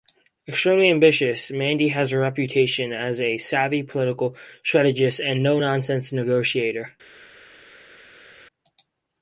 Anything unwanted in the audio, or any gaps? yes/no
no